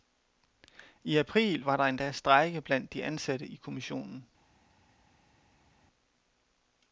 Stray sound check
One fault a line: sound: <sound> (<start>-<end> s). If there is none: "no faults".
no faults